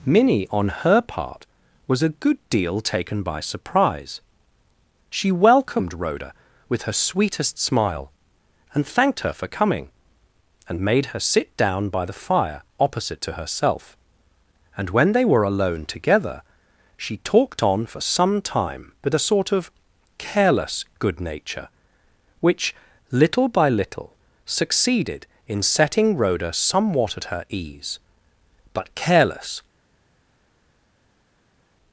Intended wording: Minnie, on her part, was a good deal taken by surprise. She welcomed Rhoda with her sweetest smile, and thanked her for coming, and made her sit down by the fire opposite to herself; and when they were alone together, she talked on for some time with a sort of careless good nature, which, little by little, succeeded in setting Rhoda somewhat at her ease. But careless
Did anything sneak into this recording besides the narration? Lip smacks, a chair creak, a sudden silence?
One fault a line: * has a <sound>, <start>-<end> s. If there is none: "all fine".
all fine